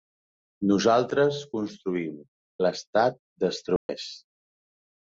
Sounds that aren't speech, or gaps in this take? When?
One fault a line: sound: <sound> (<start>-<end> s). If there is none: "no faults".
sound: dropout (3.8-3.9 s)